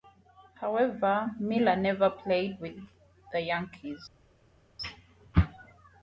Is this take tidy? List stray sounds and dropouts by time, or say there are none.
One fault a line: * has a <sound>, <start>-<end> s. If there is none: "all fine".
all fine